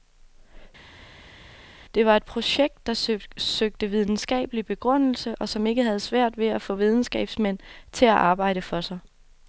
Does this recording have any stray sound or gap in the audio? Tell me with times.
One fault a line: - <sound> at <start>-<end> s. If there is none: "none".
none